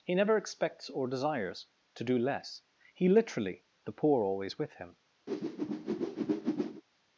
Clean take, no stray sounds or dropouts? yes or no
no